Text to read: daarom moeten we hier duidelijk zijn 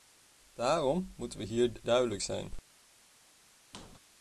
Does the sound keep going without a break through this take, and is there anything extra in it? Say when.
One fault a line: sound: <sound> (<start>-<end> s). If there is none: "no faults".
sound: squeak (3.7-4.0 s)